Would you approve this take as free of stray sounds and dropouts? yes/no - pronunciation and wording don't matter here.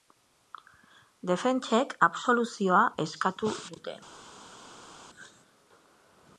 yes